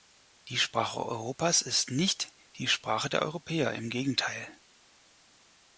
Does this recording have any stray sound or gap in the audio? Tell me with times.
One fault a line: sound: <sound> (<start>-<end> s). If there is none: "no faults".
no faults